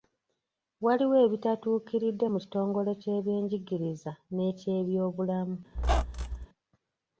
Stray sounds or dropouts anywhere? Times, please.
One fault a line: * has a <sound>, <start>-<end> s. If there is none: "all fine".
* has a squeak, 5.7-6.5 s